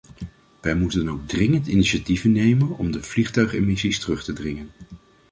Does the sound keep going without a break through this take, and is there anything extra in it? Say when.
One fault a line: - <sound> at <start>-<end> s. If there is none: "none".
none